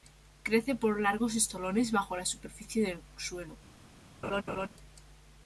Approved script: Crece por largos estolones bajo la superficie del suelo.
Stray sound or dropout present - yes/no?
yes